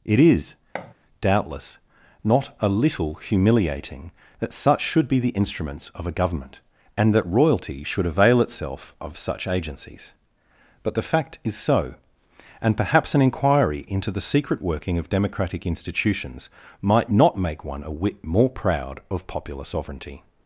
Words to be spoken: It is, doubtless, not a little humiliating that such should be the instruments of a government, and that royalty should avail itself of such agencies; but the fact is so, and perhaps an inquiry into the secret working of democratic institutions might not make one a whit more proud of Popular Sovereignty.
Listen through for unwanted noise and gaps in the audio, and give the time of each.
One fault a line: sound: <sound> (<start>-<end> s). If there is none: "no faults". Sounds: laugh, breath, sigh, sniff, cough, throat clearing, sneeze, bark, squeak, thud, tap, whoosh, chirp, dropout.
sound: thud (0.7-0.9 s)